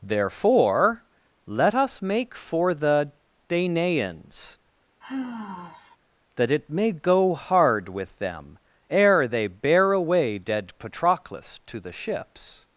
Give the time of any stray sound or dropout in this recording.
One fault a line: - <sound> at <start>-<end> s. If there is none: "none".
- sigh at 5.0-6.0 s